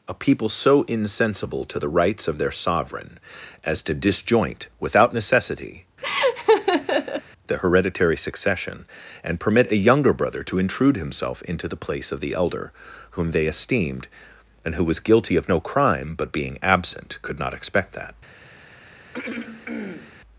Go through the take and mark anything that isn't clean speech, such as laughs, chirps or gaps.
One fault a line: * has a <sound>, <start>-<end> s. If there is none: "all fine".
* has a laugh, 6.0-7.2 s
* has a throat clearing, 19.1-20.2 s